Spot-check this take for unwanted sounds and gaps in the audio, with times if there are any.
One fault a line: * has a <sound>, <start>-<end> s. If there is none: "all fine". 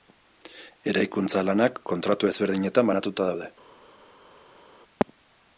all fine